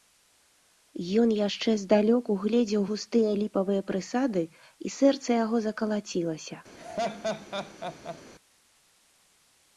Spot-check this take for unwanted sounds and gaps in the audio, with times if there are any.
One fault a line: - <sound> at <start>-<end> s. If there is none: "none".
- laugh at 6.8-8.2 s